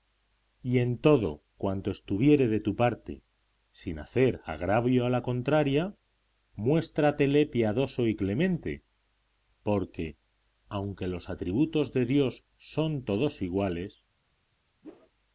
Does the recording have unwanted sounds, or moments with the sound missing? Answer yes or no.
yes